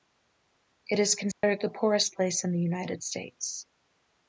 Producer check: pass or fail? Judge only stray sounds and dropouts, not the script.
fail